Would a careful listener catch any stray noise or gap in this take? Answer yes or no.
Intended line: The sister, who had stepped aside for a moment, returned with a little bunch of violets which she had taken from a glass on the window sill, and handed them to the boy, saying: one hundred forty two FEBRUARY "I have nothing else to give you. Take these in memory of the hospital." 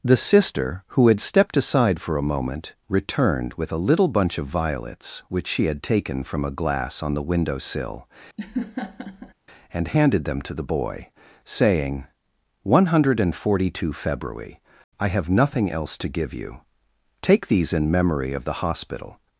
yes